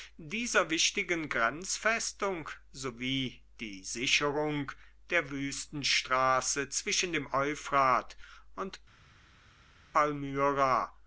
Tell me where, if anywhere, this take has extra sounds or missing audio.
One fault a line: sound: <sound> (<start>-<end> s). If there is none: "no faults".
no faults